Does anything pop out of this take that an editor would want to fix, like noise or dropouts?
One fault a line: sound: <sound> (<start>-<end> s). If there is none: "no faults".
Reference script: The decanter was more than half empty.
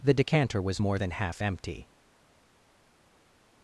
no faults